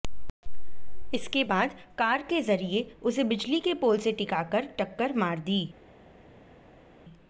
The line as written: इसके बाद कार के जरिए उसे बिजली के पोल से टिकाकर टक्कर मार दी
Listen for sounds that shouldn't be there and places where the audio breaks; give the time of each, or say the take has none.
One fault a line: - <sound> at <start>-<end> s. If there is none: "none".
none